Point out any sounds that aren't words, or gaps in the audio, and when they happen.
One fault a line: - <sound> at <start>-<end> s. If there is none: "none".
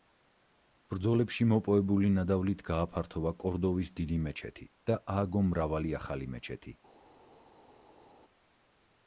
none